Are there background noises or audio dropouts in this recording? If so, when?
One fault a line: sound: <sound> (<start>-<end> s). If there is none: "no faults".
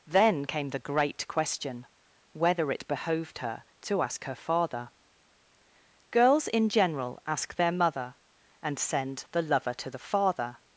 no faults